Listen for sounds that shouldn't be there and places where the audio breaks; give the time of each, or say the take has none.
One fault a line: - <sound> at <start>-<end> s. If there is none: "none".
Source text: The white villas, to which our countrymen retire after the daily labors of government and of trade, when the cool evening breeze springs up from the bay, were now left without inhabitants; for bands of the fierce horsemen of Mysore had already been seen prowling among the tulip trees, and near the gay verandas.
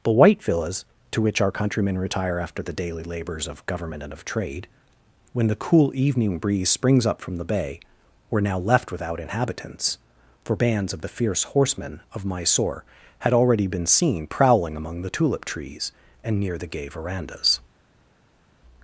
none